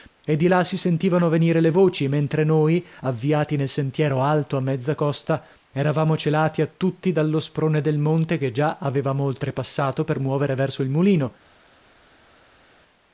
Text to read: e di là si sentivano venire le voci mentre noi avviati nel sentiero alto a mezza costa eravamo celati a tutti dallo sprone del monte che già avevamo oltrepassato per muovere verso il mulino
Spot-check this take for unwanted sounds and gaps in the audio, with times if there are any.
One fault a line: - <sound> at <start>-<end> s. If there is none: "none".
none